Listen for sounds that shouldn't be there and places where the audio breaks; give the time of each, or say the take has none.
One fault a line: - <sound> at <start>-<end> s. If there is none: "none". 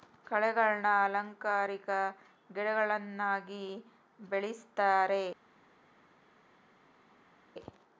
none